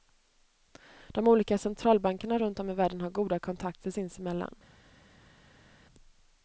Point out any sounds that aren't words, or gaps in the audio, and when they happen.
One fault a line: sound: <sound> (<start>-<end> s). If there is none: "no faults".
no faults